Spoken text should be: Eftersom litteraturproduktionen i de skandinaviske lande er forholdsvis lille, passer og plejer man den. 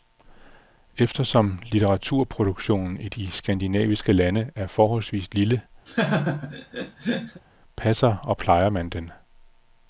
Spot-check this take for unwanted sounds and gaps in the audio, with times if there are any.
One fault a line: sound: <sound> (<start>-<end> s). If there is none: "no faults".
sound: laugh (5.9-7.4 s)